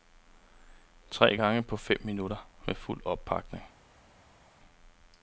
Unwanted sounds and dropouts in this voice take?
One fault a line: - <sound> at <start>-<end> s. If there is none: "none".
none